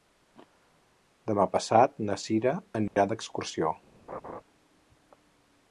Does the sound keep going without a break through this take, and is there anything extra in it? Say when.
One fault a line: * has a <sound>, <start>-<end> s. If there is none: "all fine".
* has a dropout, 2.9-3.0 s
* has a laugh, 4.1-4.4 s